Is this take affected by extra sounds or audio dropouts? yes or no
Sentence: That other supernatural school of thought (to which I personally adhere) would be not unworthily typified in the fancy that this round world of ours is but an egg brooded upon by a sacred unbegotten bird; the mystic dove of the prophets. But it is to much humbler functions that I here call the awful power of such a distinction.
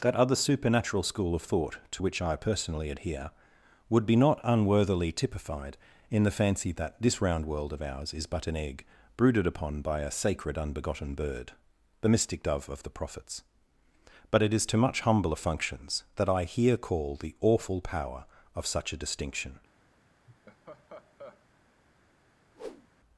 yes